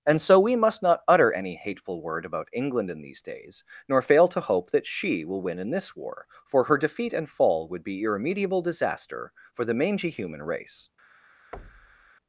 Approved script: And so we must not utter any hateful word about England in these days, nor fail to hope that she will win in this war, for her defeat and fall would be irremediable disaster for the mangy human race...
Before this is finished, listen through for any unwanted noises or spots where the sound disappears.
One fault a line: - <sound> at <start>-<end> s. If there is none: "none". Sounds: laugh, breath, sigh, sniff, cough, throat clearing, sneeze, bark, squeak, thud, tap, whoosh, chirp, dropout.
- thud at 11.5-12.1 s